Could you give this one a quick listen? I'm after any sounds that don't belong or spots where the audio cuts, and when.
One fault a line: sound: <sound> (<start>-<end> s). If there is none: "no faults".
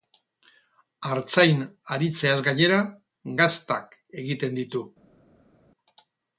no faults